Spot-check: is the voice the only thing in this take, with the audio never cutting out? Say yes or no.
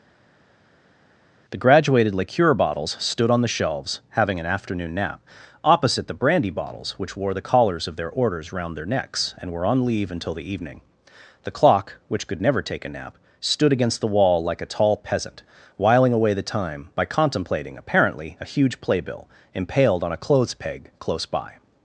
yes